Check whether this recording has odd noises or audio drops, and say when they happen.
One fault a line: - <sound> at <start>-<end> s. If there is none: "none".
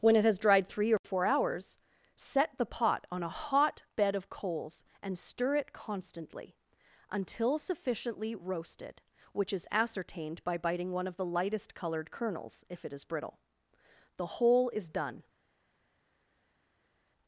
none